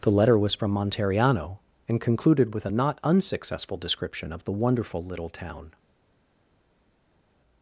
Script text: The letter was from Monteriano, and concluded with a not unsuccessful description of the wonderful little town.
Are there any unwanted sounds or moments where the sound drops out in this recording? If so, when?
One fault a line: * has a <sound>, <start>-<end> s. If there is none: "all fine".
all fine